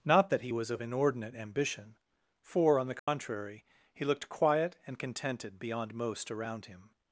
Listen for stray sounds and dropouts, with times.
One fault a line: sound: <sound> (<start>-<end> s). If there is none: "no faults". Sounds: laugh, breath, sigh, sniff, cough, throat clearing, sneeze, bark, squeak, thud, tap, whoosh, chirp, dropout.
sound: dropout (3.0-3.1 s)